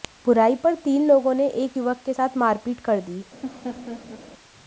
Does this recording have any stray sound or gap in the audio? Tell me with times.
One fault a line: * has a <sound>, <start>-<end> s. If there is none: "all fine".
* has a laugh, 3.4-4.2 s